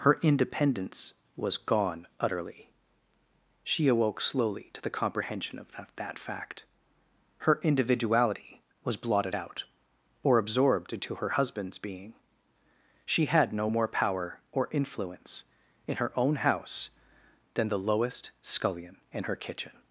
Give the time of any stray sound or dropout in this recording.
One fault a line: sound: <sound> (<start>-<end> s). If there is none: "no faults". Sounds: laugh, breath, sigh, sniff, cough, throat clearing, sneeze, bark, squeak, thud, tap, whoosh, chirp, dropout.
no faults